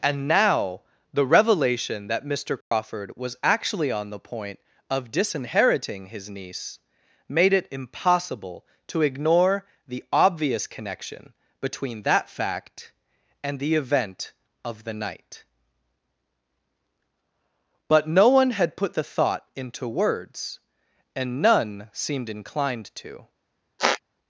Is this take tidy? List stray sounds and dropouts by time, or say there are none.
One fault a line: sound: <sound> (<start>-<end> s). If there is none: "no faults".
sound: dropout (2.6-2.7 s)
sound: squeak (23.8-24.0 s)